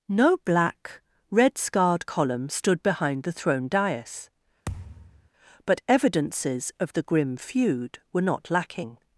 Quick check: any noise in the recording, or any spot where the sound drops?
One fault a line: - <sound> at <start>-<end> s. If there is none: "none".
- thud at 4.7-5.3 s